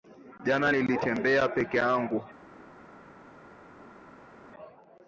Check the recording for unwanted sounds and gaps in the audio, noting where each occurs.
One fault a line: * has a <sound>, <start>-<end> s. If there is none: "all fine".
all fine